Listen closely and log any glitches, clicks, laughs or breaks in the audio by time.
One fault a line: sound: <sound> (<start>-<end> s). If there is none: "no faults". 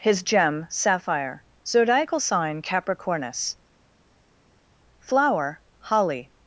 no faults